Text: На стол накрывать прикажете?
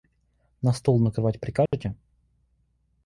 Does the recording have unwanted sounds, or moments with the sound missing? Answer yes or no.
yes